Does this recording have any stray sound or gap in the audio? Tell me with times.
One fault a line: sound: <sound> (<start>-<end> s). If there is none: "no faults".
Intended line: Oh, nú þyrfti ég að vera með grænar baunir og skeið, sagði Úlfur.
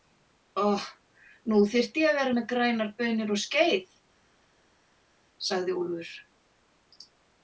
no faults